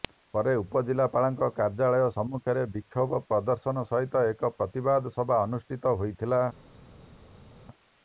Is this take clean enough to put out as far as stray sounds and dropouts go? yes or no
yes